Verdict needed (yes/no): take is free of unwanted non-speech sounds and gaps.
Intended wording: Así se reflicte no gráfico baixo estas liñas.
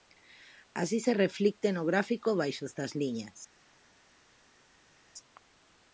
yes